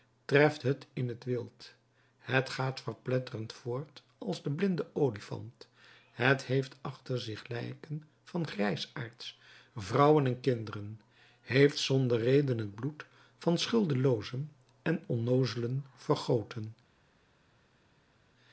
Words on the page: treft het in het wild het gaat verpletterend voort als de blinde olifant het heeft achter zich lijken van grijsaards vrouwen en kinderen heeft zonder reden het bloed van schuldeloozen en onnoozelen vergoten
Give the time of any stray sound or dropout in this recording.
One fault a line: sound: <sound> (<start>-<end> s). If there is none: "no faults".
no faults